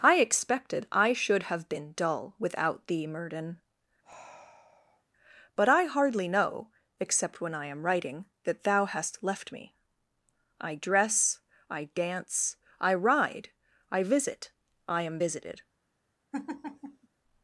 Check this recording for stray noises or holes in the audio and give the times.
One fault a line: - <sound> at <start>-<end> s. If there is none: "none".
- sigh at 4.0-5.0 s
- laugh at 16.3-17.1 s